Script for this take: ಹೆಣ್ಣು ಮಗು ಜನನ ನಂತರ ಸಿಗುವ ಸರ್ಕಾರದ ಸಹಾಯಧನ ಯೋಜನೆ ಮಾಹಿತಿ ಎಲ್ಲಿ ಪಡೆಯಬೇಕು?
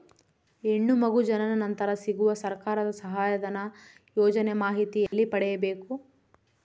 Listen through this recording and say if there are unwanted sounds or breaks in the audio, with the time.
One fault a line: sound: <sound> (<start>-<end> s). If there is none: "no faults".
sound: dropout (5.1-5.1 s)